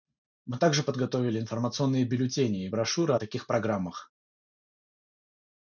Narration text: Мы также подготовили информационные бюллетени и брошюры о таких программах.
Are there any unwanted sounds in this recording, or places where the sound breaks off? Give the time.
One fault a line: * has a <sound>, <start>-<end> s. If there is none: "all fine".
all fine